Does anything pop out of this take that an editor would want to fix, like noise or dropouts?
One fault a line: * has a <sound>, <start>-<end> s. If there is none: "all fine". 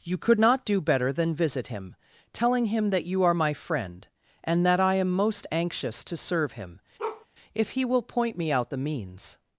* has a bark, 7.0-7.3 s